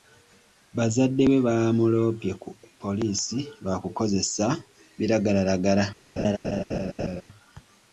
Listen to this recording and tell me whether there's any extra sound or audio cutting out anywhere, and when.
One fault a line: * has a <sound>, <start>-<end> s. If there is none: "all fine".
* has a laugh, 6.2-7.2 s